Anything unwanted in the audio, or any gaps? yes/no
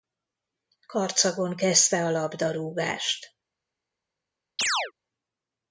yes